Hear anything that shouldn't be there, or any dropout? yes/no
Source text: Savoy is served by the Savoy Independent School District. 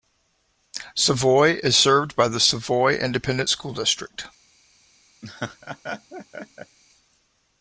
yes